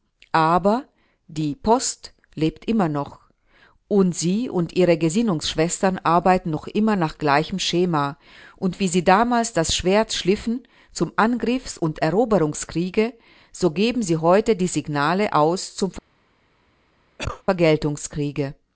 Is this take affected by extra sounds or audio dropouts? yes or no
yes